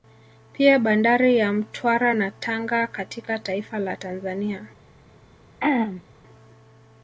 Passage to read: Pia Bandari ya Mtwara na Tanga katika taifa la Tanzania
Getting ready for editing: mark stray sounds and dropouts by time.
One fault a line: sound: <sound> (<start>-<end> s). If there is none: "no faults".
sound: throat clearing (5.6-6.0 s)